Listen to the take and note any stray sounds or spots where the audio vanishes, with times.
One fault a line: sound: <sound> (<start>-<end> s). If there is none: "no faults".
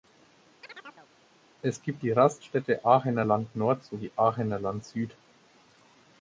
sound: chirp (0.6-1.1 s)